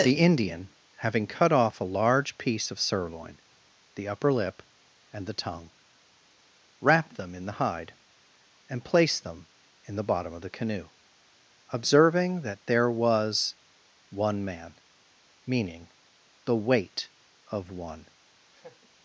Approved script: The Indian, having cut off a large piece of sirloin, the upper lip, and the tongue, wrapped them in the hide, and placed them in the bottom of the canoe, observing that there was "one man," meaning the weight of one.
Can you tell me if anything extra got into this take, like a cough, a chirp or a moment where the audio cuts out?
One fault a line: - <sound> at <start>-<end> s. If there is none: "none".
- laugh at 18.5-18.9 s